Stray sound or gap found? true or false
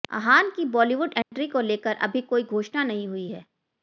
true